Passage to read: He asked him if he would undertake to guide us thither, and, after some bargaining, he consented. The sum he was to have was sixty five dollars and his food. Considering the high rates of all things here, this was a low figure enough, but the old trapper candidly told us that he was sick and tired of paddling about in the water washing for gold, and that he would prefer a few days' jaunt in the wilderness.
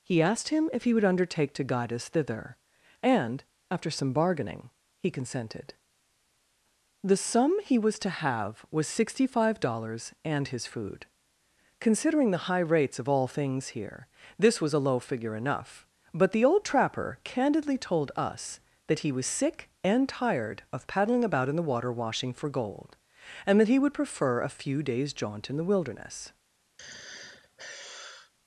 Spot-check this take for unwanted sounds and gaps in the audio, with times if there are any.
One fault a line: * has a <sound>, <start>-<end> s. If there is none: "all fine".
* has a sigh, 26.8-28.3 s